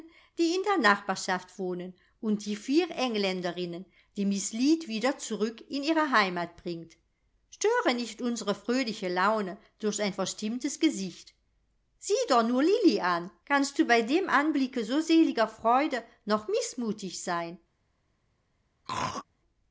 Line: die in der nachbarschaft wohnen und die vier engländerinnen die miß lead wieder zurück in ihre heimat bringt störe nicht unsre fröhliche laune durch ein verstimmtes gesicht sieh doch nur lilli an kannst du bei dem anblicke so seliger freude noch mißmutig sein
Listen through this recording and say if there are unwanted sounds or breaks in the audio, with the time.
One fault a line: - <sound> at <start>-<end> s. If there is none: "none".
- throat clearing at 18.9-19.3 s